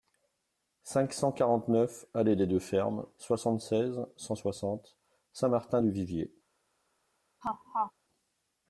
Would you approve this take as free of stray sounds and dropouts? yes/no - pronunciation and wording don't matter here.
no